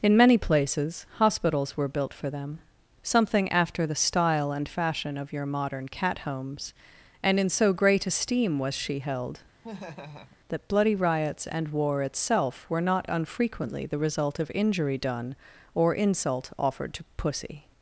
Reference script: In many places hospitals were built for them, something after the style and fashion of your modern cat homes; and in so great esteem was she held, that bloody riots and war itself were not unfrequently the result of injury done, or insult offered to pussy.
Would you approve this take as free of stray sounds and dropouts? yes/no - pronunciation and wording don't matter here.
no